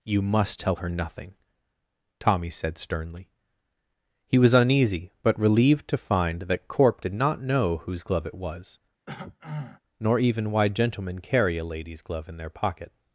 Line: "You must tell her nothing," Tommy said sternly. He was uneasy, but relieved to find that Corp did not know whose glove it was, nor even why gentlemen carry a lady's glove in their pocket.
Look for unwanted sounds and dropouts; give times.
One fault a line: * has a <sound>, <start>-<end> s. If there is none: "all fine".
* has a throat clearing, 9.1-9.8 s